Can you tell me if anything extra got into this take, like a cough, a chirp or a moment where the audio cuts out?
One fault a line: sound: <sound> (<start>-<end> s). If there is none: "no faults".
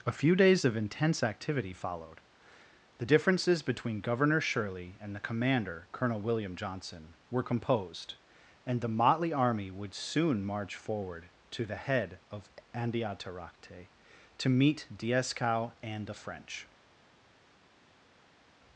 no faults